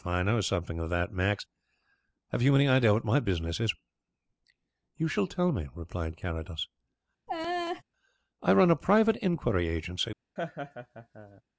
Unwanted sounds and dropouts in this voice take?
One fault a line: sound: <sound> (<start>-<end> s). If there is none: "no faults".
sound: laugh (7.3-7.8 s)
sound: laugh (10.4-11.4 s)